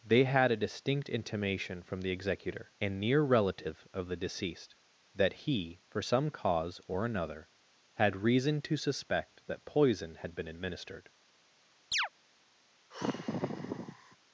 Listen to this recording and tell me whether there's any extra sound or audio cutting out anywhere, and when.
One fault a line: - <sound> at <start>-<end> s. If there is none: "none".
- chirp at 11.9-12.1 s
- sigh at 12.9-14.2 s